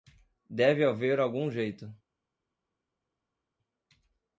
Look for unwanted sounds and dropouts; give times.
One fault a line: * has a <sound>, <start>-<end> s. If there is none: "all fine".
all fine